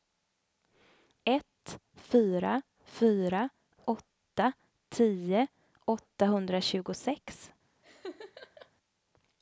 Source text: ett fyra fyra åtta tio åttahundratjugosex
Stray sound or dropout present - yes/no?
yes